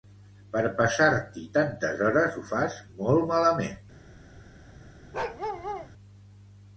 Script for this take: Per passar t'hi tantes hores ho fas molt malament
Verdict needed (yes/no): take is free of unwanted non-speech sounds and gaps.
no